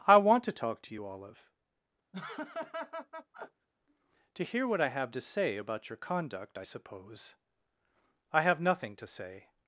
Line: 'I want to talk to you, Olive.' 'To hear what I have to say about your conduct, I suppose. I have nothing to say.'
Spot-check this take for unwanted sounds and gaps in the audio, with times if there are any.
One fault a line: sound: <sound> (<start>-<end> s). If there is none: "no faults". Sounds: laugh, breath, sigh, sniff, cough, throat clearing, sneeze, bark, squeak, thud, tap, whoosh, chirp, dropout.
sound: laugh (2.1-3.7 s)